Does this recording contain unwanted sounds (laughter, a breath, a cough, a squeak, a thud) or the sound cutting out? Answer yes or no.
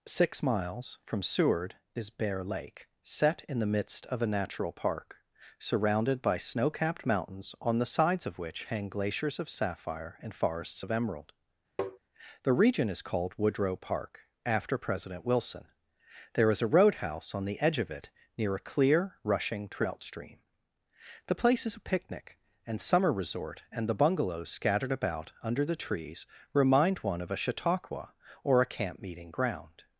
yes